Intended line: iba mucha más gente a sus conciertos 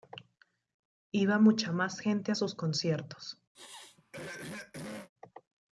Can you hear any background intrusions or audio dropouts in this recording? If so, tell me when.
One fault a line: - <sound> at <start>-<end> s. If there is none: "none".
- throat clearing at 3.5-5.1 s